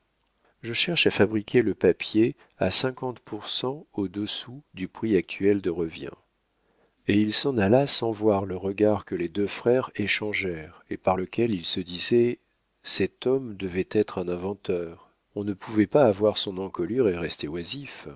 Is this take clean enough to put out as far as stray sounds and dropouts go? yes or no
yes